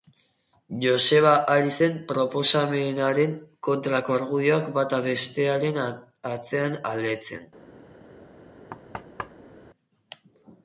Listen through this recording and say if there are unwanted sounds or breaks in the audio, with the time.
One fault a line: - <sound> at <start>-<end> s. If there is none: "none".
- thud at 8.7-9.6 s